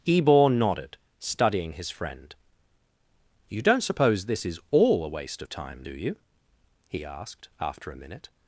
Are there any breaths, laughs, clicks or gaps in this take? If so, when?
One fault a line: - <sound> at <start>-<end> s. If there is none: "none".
none